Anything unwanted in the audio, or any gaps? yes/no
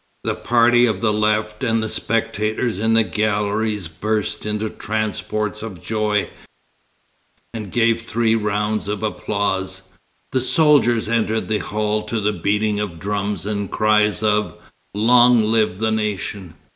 no